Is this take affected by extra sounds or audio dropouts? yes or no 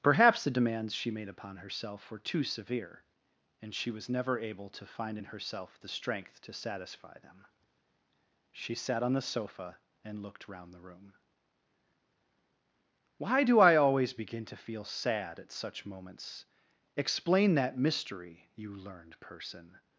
no